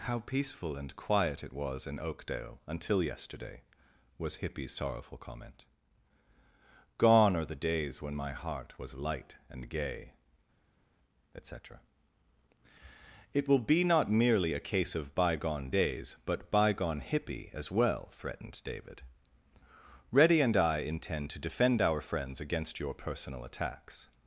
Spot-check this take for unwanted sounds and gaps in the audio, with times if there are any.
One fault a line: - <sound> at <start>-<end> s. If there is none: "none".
none